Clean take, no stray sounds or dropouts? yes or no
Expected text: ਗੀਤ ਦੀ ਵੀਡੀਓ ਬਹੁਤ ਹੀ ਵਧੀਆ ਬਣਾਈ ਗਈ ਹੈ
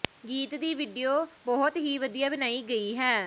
yes